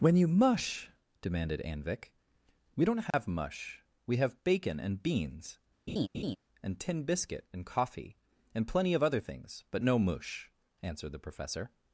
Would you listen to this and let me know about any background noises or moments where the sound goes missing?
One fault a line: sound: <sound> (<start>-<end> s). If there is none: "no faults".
sound: dropout (3.1-3.1 s)
sound: laugh (5.9-6.4 s)